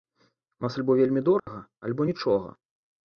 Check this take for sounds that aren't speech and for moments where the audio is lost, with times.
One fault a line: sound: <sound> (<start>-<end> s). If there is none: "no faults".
sound: dropout (1.4-1.5 s)